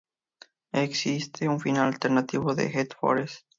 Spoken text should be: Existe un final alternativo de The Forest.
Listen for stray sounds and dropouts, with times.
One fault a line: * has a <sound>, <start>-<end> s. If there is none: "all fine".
all fine